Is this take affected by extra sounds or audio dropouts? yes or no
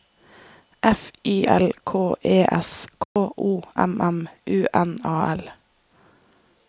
yes